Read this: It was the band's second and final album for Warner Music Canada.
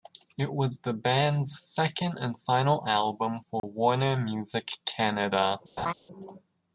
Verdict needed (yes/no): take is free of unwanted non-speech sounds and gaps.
no